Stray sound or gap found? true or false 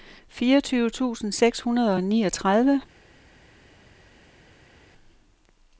false